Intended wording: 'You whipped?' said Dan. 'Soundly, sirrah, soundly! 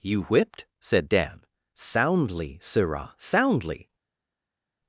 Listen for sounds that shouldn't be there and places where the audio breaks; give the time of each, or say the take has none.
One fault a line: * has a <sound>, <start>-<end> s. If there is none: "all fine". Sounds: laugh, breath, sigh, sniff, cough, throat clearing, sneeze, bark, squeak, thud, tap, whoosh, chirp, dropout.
all fine